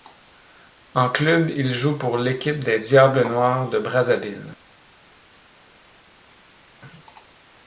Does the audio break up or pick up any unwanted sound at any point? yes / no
no